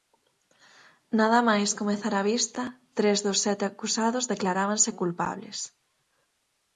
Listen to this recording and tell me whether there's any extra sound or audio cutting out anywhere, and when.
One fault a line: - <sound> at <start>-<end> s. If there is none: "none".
none